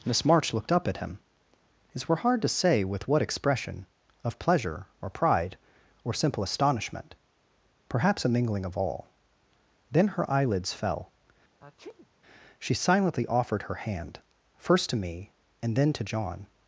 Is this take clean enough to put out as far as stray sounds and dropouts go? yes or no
no